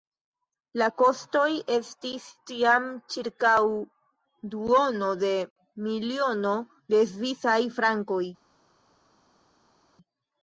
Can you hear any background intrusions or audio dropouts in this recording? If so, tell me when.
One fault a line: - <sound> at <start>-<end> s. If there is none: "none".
none